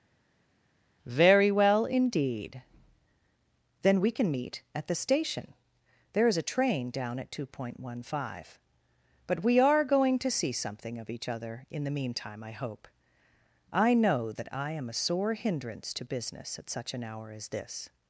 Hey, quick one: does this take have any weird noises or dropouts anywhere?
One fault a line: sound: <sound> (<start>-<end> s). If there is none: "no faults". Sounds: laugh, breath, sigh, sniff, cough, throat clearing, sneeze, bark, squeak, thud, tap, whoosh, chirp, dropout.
no faults